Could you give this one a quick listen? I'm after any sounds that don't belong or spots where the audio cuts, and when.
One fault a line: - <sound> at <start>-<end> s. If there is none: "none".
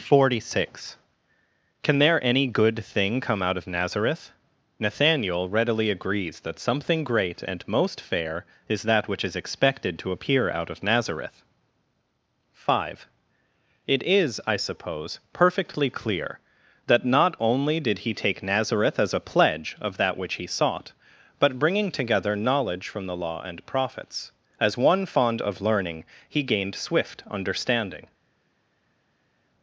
none